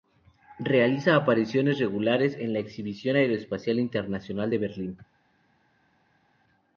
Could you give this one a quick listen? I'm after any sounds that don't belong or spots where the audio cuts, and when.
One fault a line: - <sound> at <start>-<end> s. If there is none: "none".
none